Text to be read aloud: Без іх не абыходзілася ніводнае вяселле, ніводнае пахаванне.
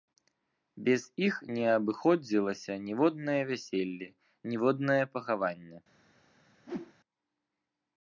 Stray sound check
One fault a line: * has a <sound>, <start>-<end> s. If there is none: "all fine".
* has a whoosh, 6.7-6.9 s